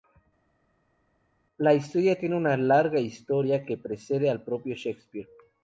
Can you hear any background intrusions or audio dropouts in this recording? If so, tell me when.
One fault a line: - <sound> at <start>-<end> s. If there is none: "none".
none